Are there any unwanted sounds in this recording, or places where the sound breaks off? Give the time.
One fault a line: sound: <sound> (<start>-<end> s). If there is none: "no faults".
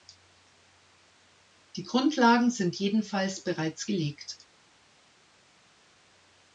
no faults